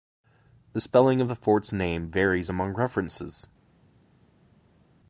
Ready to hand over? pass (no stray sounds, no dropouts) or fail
pass